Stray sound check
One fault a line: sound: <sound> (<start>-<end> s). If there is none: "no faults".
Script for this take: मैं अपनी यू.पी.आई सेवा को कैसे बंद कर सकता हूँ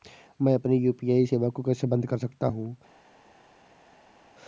no faults